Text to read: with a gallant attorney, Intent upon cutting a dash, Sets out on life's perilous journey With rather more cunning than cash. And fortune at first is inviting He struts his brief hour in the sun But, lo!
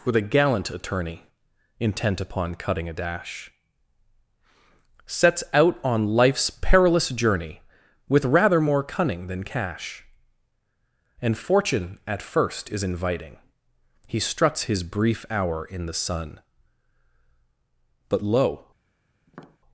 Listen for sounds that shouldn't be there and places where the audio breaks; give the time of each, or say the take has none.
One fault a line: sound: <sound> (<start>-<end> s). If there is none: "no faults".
sound: tap (19.3-19.6 s)